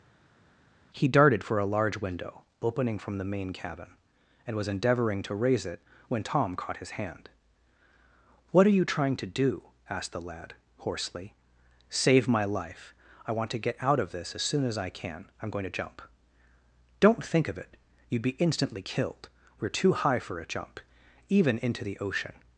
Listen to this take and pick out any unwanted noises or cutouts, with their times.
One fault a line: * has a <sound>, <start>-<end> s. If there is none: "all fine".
all fine